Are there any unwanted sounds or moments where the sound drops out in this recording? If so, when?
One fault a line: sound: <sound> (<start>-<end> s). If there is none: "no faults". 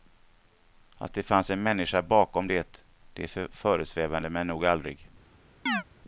sound: chirp (5.7-5.8 s)